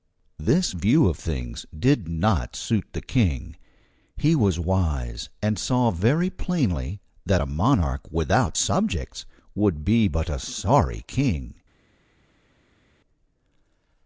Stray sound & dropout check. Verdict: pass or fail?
pass